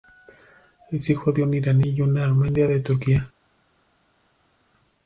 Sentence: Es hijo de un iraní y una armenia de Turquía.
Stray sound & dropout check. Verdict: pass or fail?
pass